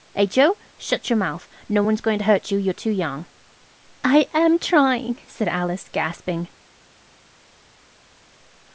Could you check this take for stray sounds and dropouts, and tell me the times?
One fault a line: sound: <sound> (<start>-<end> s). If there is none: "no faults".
no faults